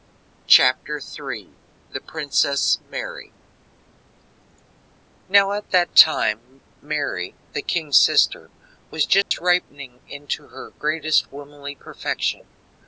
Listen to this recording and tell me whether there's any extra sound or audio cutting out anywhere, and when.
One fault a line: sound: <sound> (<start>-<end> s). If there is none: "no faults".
sound: dropout (9.2-9.3 s)